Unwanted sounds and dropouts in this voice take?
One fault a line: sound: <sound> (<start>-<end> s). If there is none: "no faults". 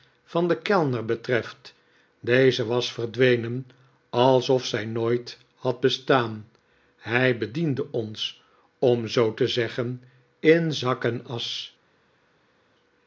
no faults